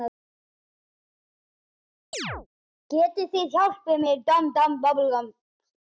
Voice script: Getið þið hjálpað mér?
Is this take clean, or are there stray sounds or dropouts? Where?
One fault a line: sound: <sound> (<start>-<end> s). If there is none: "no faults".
sound: chirp (2.1-2.5 s)